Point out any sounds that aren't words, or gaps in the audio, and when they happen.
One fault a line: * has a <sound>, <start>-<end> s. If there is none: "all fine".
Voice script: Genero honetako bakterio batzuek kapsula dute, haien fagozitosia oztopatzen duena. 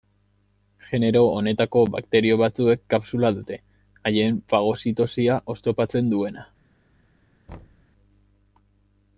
* has a thud, 7.5-7.9 s